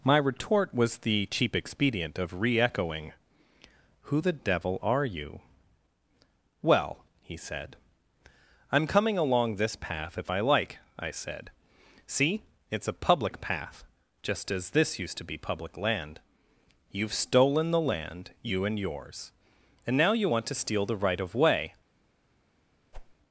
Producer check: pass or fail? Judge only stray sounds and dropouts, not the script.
fail